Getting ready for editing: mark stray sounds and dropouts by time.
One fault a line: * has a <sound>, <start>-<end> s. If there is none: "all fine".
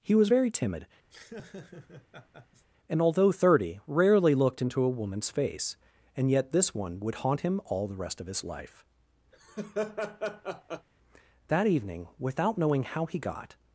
* has a laugh, 1.1-2.7 s
* has a laugh, 9.3-10.9 s